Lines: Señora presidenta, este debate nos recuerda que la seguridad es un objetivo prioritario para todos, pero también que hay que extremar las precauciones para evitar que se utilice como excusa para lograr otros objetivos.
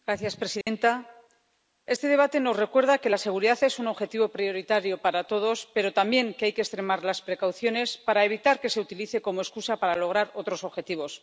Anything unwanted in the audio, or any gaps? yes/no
yes